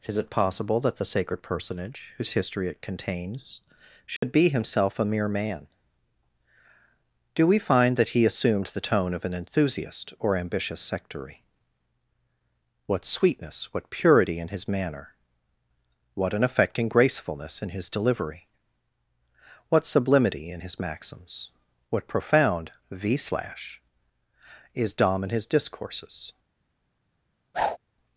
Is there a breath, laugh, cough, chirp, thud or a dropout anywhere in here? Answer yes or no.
yes